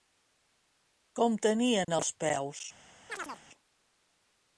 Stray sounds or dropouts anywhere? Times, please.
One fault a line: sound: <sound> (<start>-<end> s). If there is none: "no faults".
sound: dropout (1.8-1.9 s)
sound: chirp (3.1-3.4 s)